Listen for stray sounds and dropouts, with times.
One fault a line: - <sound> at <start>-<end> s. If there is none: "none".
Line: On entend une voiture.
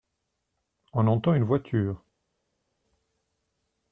none